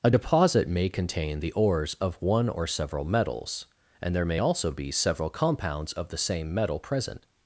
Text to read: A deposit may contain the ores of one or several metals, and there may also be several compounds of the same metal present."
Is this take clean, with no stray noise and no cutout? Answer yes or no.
yes